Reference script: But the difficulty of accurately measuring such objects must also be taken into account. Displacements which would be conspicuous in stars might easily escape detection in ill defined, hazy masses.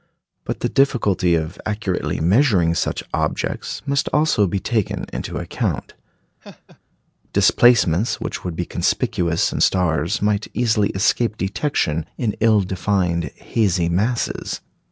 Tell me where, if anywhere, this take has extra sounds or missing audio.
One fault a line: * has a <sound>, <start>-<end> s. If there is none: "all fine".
* has a laugh, 6.4-6.8 s